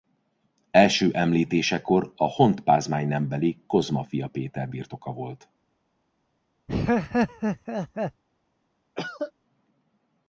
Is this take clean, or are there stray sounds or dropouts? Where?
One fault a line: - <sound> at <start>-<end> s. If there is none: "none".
- laugh at 6.7-8.2 s
- cough at 9.0-9.3 s